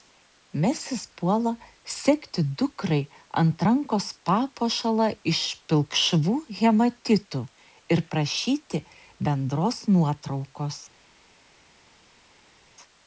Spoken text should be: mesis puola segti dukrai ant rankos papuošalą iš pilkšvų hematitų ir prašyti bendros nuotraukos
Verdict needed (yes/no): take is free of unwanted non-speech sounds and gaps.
yes